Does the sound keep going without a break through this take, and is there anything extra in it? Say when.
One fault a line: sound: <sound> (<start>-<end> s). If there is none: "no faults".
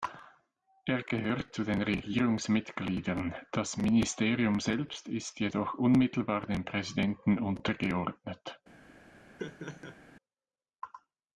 sound: laugh (9.4-10.0 s)